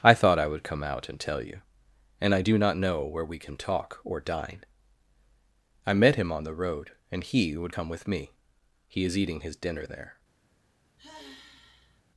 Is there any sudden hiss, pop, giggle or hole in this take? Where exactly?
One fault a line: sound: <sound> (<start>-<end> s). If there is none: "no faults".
sound: sigh (11.0-12.0 s)